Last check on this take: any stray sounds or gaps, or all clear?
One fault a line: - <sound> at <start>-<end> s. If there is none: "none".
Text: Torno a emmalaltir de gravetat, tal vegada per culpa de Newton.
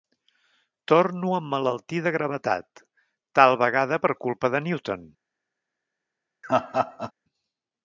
- laugh at 6.4-7.1 s